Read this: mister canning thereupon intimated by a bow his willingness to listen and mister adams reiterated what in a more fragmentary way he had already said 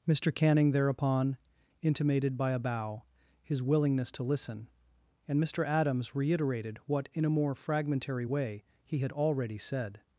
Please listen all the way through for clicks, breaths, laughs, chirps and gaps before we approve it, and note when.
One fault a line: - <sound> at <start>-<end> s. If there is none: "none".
none